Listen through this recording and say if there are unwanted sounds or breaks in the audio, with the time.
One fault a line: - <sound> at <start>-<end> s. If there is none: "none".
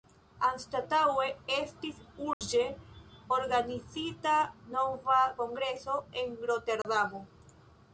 - dropout at 2.3-2.4 s
- dropout at 6.8-6.8 s